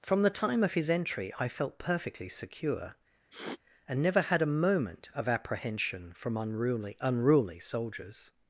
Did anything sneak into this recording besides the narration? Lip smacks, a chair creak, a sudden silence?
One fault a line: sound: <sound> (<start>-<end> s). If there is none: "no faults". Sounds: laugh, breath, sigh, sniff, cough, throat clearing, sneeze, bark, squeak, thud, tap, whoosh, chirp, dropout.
sound: sniff (3.3-3.6 s)